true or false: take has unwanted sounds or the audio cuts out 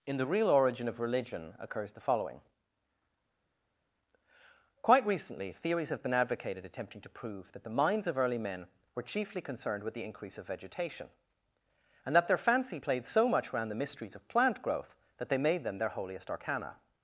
false